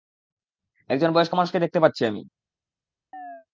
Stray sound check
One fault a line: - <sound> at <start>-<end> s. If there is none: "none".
- chirp at 3.1-3.5 s